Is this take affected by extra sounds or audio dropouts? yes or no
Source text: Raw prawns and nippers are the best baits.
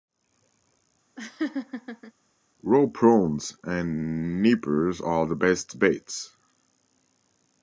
yes